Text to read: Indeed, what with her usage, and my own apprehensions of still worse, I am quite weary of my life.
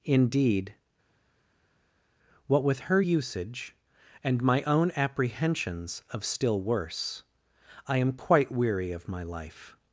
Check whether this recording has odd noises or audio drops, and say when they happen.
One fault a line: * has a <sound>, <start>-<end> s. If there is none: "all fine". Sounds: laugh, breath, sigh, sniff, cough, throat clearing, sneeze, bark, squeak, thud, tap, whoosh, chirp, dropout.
all fine